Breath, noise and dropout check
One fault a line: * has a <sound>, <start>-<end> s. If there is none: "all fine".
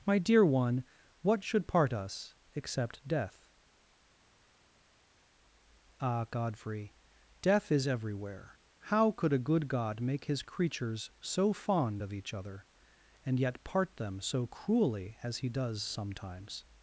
all fine